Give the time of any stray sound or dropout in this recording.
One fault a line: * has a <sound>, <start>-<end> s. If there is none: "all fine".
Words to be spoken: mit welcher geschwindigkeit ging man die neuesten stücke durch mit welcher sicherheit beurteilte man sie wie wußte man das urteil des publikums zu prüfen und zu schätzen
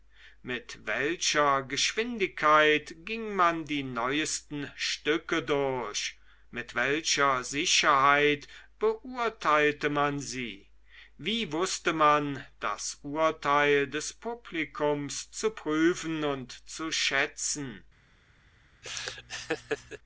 * has a laugh, 18.8-20.0 s